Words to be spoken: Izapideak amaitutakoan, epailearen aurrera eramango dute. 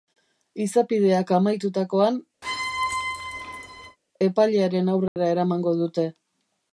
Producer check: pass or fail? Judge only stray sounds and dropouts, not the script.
fail